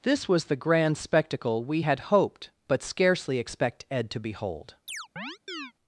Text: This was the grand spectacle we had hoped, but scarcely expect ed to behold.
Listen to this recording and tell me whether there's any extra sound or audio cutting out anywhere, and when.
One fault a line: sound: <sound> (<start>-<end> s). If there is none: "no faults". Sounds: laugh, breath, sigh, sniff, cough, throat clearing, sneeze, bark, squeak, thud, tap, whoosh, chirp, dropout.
sound: chirp (4.9-5.7 s)